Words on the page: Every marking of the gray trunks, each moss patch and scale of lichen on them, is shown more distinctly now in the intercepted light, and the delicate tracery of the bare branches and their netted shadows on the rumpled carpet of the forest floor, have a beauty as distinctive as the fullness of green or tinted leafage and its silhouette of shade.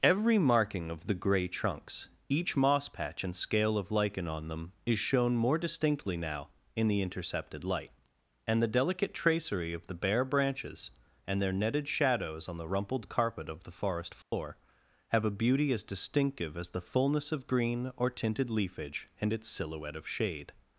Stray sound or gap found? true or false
true